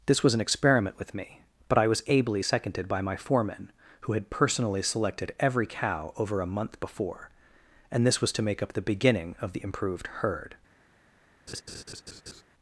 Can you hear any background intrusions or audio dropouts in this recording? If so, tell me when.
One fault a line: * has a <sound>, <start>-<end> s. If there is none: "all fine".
* has a laugh, 11.5-12.4 s